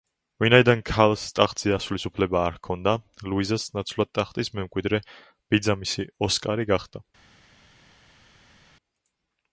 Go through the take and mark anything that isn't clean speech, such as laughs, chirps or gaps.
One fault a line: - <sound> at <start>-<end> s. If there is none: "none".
none